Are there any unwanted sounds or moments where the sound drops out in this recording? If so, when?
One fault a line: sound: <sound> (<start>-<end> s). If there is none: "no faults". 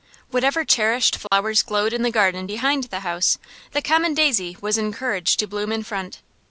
sound: dropout (1.3-1.3 s)